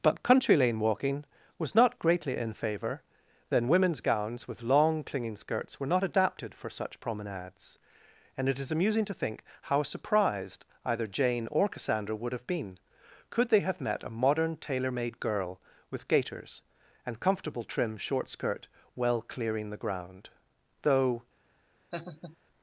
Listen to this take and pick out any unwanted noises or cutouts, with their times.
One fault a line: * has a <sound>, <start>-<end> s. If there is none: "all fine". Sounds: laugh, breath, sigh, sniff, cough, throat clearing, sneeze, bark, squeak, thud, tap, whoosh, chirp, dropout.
* has a laugh, 21.9-22.4 s